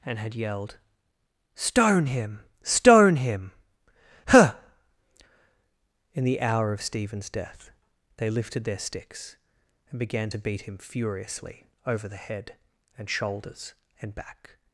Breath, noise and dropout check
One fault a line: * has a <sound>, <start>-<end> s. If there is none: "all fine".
all fine